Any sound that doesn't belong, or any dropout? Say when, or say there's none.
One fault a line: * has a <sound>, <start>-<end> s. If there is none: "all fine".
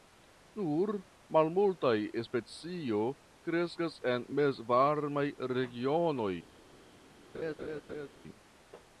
* has a laugh, 7.3-8.1 s